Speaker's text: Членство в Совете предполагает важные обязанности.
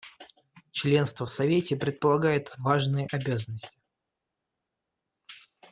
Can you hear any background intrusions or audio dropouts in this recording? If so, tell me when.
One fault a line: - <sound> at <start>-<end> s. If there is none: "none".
none